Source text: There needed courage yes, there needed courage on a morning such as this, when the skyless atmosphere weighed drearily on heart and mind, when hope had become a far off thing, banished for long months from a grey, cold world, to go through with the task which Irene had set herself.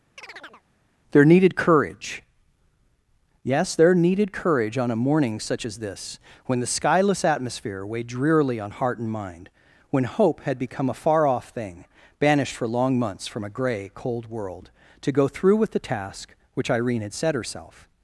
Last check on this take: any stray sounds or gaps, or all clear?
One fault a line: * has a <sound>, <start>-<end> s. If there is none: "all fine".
* has a chirp, 0.2-0.6 s